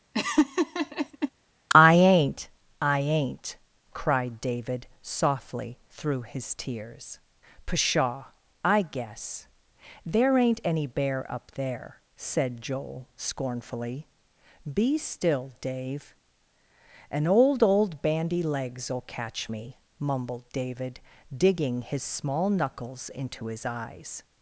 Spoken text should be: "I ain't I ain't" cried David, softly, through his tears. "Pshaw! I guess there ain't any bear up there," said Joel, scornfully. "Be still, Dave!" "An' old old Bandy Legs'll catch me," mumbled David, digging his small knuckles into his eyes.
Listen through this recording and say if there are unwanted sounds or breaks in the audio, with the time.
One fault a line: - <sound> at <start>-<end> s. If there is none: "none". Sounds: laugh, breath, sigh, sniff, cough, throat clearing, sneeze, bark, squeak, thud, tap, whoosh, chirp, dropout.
- laugh at 0.1-1.3 s